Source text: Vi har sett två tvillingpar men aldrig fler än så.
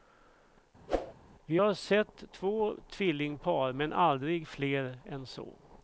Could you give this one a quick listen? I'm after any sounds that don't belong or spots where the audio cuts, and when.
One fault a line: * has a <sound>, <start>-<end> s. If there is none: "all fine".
* has a whoosh, 0.9-1.1 s